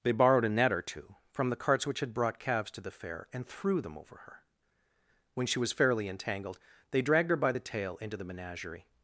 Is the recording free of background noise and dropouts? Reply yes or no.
yes